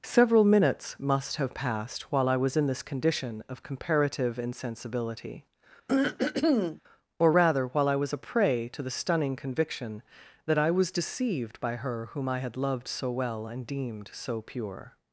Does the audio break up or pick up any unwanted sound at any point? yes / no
yes